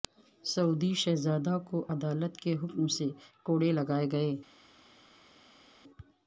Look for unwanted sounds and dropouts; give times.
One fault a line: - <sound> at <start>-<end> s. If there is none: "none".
none